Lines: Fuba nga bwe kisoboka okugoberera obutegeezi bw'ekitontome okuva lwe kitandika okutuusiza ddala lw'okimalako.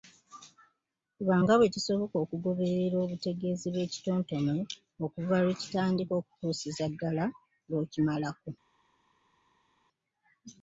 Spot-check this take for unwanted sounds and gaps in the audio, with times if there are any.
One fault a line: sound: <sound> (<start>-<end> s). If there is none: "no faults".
no faults